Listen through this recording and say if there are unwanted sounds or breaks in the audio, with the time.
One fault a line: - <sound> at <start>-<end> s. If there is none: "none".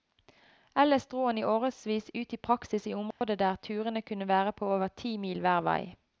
- dropout at 3.1-3.2 s